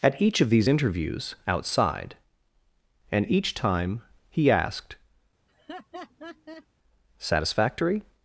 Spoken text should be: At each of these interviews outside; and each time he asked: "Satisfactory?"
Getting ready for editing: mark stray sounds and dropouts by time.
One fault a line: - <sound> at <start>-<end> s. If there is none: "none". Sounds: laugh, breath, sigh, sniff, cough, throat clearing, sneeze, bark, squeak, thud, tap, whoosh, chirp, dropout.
- laugh at 5.5-6.7 s